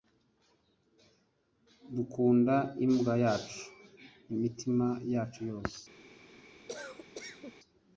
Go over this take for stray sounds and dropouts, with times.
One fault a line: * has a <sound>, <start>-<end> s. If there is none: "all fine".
* has a cough, 6.7-7.6 s